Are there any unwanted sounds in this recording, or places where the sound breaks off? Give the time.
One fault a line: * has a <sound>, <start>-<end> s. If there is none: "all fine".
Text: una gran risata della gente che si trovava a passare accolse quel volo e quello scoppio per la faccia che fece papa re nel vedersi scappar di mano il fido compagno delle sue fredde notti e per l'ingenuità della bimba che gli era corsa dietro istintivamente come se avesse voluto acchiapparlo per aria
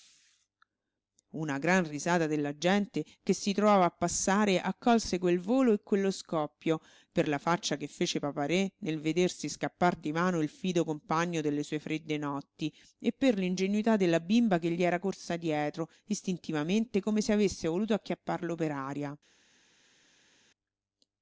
all fine